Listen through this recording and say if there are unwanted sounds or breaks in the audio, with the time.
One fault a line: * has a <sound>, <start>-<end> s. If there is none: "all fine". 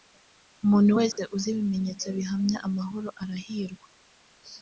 * has a dropout, 1.1-1.2 s